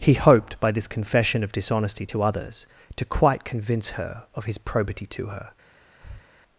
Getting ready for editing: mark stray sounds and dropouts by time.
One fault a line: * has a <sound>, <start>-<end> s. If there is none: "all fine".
* has a breath, 6.0-6.3 s